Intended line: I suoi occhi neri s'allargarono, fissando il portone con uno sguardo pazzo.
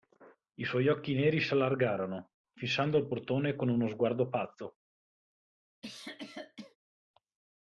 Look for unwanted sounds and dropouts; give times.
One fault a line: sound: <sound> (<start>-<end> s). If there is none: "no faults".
sound: cough (5.8-6.8 s)